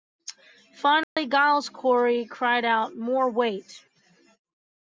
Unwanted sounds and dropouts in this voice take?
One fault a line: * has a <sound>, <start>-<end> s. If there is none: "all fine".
* has a dropout, 1.0-1.2 s